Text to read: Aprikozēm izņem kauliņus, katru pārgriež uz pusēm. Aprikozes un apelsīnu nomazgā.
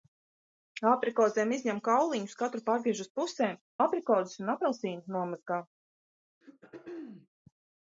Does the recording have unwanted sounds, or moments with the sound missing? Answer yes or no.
yes